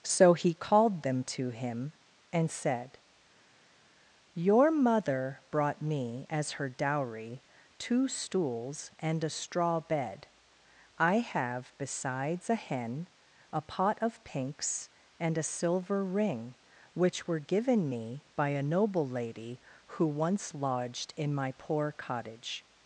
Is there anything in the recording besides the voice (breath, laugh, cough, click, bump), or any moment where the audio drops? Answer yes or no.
no